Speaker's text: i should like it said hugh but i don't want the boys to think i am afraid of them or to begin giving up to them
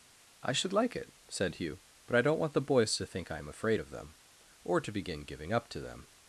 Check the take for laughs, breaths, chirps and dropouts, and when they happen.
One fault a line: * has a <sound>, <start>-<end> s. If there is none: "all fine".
all fine